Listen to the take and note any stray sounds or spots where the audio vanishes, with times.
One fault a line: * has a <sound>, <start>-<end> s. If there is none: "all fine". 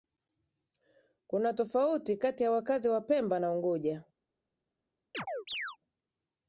* has a chirp, 5.1-5.8 s